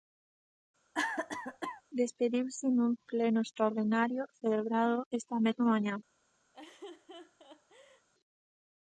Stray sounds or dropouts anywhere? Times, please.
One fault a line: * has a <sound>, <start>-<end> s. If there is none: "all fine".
* has a cough, 0.9-1.8 s
* has a laugh, 6.5-8.1 s